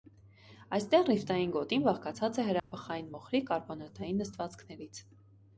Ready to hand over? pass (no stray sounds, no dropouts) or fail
fail